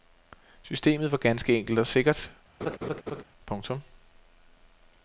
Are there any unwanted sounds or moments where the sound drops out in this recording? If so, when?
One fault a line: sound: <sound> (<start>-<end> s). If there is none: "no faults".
sound: laugh (2.6-3.2 s)